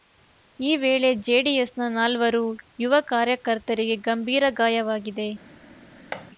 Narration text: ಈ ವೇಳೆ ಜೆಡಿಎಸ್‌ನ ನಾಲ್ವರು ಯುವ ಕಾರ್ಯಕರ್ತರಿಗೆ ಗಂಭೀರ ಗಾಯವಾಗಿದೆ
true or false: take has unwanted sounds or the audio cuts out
true